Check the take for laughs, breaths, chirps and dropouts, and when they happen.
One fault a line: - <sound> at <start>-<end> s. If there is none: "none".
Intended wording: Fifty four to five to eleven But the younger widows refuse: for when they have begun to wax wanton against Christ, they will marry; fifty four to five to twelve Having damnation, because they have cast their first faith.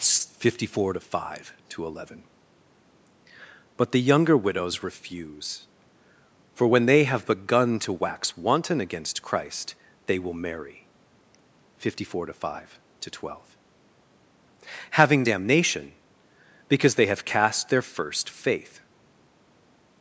none